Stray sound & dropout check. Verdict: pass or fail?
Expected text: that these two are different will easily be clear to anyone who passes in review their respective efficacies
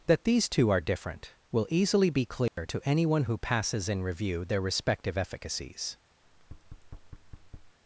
fail